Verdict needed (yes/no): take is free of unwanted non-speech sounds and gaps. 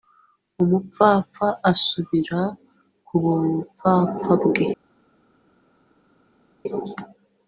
yes